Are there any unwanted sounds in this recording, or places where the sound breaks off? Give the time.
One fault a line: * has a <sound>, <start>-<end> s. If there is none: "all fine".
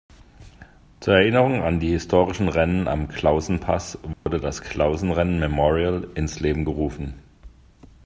* has a dropout, 4.1-4.3 s